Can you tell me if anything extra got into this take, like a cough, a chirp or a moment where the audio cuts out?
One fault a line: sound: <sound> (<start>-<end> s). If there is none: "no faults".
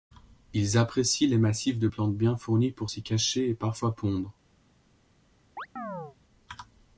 sound: chirp (5.6-6.2 s)